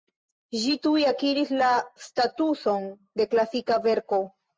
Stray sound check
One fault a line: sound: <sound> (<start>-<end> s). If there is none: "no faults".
no faults